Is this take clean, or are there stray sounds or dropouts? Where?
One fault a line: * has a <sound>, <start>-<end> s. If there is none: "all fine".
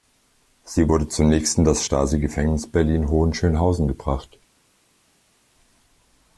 all fine